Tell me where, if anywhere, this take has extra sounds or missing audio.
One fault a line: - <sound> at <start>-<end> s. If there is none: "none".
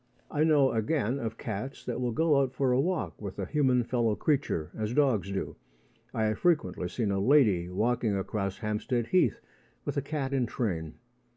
none